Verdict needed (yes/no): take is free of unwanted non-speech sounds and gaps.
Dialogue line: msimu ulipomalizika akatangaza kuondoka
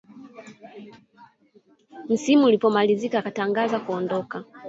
yes